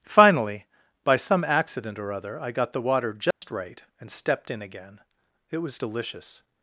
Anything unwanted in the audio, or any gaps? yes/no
yes